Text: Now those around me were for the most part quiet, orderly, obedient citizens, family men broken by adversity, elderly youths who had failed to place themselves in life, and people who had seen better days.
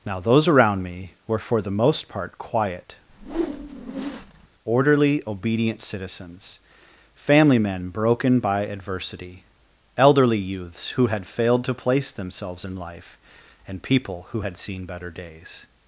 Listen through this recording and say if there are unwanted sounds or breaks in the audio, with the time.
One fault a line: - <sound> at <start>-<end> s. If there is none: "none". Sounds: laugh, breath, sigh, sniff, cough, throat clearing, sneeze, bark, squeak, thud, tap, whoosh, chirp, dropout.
- whoosh at 3.1-4.5 s